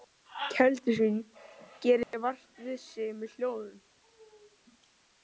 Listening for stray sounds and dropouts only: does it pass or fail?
fail